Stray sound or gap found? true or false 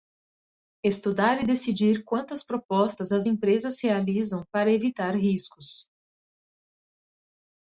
false